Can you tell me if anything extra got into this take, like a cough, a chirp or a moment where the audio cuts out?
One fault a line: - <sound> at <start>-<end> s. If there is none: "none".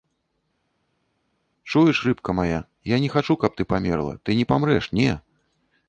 none